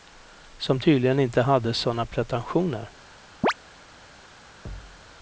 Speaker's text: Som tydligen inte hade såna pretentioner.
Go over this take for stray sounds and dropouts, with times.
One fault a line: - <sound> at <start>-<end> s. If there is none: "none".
- chirp at 3.4-3.5 s
- thud at 4.7-5.0 s